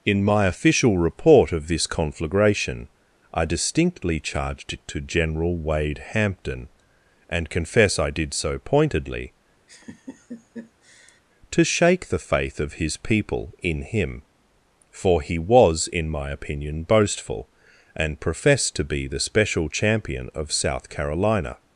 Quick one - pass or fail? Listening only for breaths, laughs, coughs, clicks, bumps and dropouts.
fail